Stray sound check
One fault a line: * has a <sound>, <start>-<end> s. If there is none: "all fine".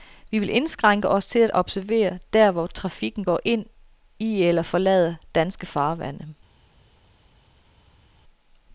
all fine